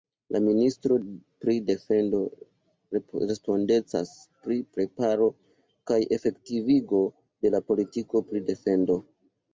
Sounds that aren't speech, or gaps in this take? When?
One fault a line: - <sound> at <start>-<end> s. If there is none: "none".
none